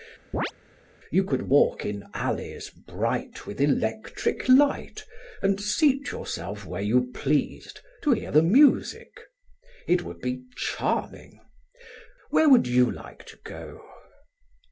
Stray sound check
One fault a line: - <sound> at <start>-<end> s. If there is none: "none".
- chirp at 0.3-0.5 s